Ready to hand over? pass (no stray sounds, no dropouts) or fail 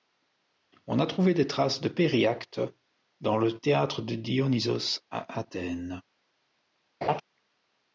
fail